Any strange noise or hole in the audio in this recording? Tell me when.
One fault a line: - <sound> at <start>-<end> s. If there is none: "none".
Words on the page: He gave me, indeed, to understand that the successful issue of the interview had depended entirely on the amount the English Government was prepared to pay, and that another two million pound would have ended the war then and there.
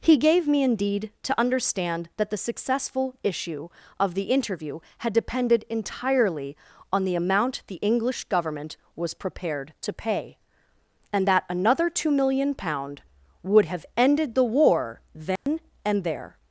- dropout at 15.4-15.5 s